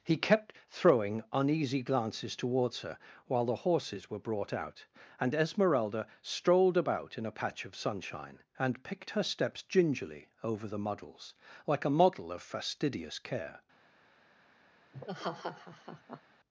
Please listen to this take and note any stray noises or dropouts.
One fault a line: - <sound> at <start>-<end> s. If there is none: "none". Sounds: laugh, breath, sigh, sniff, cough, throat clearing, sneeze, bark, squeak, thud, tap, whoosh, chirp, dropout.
- laugh at 14.9-16.2 s